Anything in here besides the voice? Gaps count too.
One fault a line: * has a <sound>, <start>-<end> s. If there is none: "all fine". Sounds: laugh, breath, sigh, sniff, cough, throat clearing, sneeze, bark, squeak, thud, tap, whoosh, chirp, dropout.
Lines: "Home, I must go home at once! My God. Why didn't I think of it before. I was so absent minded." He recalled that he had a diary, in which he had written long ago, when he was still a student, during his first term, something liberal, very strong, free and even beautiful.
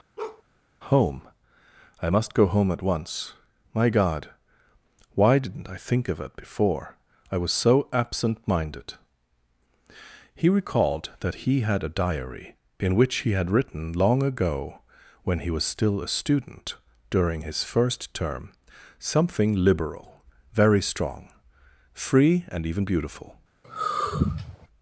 * has a bark, 0.2-0.4 s
* has a sigh, 23.6-24.7 s